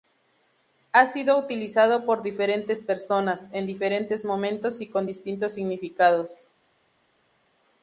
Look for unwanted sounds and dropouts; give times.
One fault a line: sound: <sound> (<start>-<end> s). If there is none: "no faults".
no faults